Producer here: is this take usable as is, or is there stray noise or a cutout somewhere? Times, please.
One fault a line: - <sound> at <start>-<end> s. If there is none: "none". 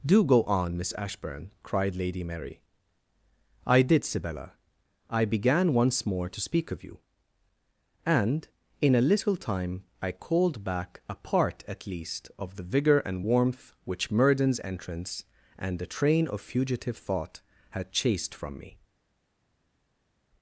none